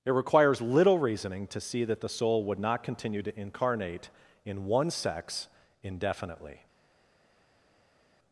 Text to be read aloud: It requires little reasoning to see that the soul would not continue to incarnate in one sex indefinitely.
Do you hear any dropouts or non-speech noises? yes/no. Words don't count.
no